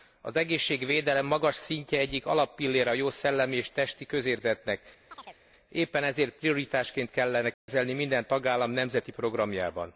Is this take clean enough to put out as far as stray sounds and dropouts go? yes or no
no